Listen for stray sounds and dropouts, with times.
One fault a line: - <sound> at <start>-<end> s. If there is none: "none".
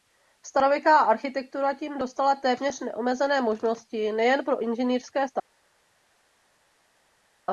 none